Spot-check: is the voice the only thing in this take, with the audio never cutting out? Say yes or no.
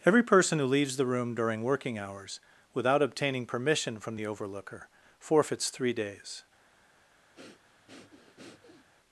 no